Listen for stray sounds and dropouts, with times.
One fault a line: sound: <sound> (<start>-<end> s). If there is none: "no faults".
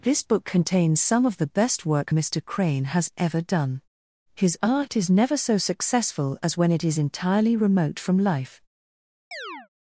sound: chirp (9.3-9.7 s)